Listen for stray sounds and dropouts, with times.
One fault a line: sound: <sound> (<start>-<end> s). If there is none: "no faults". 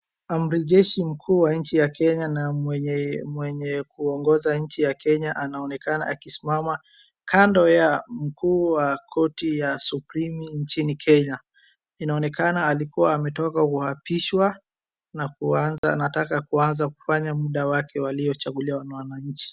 sound: dropout (15.8-15.8 s)